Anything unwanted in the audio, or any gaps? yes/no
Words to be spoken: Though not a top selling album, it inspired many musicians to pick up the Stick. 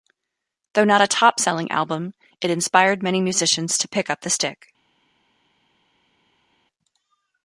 no